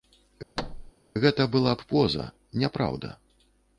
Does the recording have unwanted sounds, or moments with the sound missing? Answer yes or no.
yes